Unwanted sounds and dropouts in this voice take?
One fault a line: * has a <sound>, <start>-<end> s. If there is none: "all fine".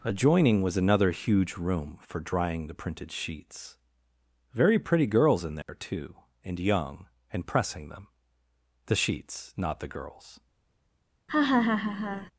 * has a dropout, 5.6-5.7 s
* has a laugh, 11.3-12.3 s